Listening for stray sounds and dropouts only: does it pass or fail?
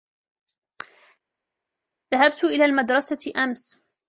pass